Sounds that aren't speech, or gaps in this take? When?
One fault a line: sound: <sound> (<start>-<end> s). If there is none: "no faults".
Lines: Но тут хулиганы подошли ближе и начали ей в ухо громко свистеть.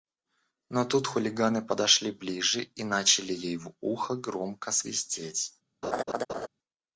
sound: laugh (5.8-6.5 s)